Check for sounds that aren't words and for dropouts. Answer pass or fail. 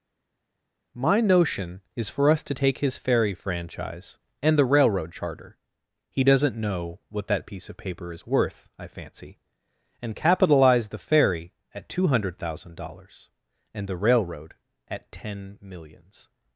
pass